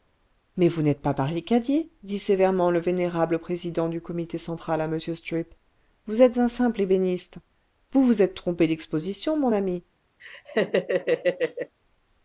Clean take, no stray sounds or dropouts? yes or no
no